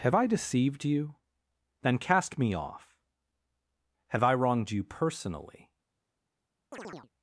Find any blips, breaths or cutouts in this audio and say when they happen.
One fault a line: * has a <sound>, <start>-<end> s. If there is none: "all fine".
* has a chirp, 6.7-7.1 s